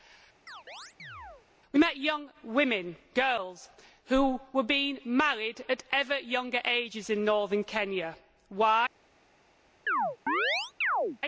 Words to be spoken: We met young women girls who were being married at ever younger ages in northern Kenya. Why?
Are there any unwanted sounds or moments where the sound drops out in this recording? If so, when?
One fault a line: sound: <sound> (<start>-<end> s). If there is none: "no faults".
sound: chirp (0.5-1.5 s)
sound: chirp (9.9-11.2 s)